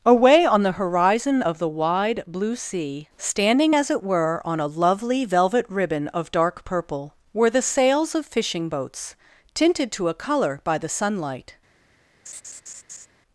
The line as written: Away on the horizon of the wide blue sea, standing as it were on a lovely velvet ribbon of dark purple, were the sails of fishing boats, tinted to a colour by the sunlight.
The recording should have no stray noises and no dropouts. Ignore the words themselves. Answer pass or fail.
fail